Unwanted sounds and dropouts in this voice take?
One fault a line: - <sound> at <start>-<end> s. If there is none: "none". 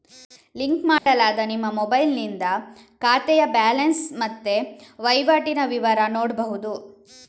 - dropout at 1.0-1.1 s